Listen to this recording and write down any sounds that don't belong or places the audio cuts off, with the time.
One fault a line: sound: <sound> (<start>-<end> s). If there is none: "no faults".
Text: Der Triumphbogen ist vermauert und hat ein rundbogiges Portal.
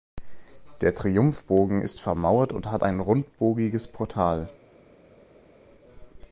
no faults